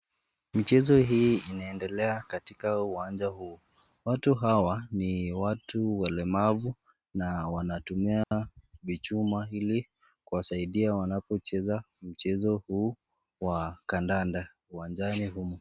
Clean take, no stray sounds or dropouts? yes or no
no